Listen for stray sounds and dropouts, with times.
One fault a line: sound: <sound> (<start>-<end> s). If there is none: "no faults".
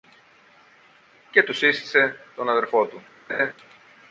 sound: laugh (3.3-3.5 s)